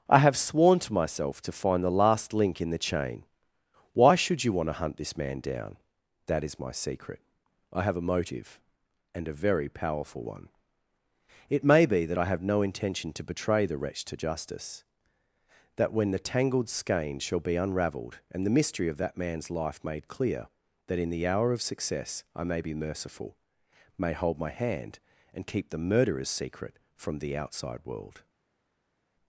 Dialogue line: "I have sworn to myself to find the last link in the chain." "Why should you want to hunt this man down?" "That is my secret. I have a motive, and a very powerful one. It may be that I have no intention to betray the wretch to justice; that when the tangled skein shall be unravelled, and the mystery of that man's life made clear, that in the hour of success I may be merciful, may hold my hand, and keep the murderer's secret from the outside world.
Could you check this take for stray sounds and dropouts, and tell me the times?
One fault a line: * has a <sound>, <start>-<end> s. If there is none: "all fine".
all fine